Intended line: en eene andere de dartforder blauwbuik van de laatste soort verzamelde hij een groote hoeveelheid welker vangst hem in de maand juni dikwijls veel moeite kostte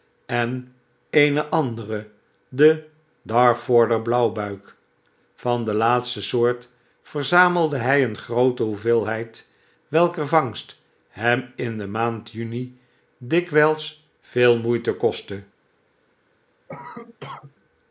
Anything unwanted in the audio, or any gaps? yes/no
yes